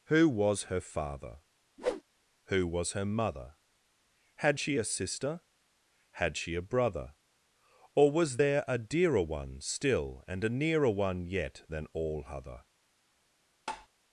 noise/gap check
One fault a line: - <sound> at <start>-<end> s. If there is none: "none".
- whoosh at 1.8-2.0 s
- tap at 13.7-13.9 s